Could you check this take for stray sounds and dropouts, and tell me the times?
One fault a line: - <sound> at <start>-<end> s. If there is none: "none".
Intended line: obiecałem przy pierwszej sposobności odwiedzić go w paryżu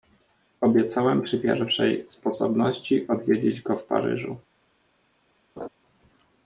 - laugh at 5.6-5.7 s